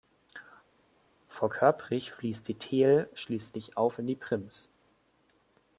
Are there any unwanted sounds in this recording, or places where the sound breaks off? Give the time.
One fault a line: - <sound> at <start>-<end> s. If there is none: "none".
none